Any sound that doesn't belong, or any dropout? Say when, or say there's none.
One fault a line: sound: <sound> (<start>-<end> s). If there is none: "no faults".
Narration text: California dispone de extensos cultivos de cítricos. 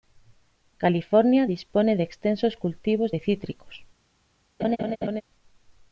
sound: laugh (4.6-5.2 s)